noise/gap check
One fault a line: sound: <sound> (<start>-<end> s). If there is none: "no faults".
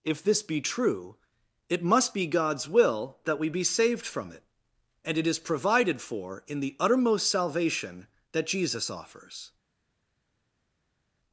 no faults